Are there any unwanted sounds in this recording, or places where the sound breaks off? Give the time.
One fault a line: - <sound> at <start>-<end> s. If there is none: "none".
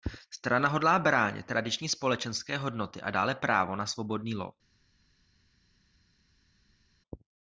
none